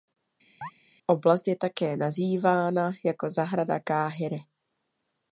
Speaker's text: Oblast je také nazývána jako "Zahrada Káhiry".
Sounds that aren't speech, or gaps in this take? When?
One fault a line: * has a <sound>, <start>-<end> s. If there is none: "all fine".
* has a chirp, 0.6-0.7 s